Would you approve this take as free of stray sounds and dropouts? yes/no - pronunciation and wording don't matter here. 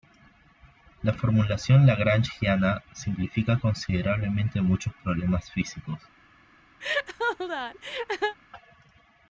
no